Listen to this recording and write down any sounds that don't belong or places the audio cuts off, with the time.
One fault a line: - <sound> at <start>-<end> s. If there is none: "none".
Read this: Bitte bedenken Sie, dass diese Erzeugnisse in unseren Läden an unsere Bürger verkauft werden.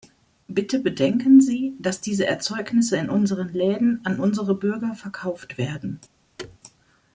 - thud at 6.4-6.6 s